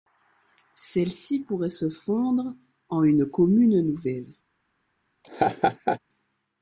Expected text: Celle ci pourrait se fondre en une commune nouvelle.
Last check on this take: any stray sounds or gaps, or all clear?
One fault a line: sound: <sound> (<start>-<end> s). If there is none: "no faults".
sound: laugh (5.2-6.0 s)